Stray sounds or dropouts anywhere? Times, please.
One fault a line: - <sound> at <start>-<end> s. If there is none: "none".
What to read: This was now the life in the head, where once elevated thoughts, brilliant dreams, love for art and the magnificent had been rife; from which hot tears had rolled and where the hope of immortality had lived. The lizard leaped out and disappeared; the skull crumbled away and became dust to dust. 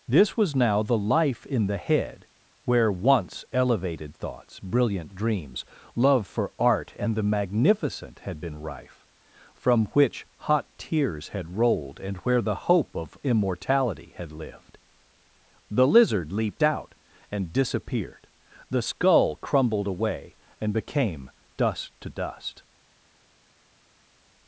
none